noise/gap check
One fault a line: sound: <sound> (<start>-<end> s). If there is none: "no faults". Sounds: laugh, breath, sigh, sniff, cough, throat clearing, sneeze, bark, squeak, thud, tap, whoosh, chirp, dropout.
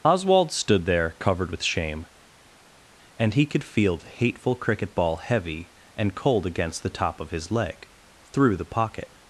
no faults